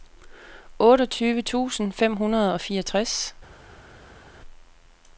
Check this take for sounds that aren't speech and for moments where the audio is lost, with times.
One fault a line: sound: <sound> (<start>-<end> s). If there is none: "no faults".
no faults